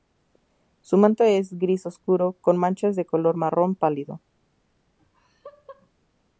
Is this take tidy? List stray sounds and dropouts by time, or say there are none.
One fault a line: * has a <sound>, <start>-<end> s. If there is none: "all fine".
* has a laugh, 5.0-5.9 s